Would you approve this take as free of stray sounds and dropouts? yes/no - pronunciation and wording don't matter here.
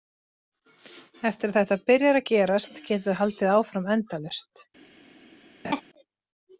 no